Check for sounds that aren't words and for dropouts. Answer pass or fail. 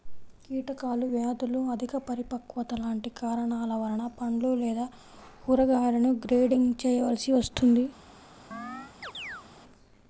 fail